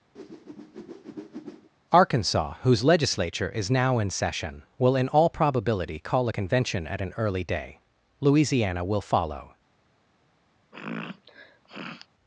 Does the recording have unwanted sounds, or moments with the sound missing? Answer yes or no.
yes